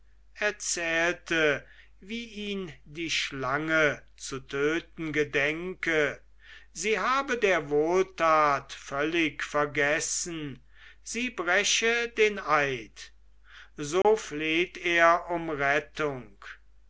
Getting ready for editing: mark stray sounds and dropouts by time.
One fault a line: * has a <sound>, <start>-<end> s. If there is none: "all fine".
* has a dropout, 14.0-14.0 s